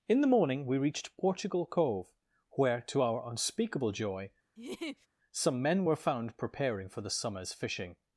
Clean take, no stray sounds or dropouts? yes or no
no